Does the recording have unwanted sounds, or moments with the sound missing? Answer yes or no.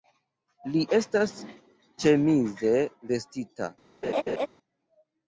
yes